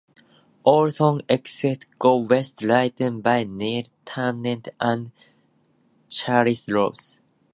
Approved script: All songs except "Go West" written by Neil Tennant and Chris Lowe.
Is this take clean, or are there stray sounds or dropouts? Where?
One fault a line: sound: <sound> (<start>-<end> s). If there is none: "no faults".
no faults